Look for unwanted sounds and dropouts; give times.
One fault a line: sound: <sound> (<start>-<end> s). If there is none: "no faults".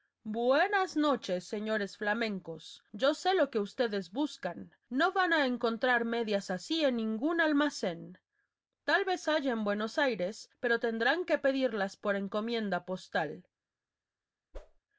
sound: whoosh (14.5-14.8 s)